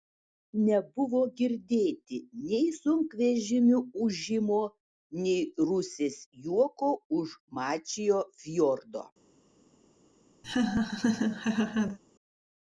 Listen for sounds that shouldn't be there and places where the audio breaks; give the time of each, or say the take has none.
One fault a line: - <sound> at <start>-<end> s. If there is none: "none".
- laugh at 10.4-12.0 s